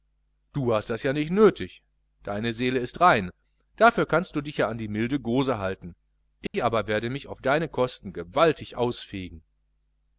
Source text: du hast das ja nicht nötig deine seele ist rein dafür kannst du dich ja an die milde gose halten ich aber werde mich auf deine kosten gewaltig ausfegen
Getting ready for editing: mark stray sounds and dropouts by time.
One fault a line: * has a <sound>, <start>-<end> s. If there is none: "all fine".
* has a dropout, 6.5-6.5 s